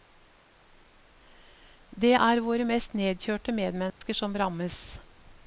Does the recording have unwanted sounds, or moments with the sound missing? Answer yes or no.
yes